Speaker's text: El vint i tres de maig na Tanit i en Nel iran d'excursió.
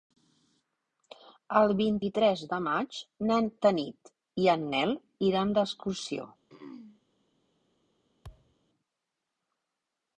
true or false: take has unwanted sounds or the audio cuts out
true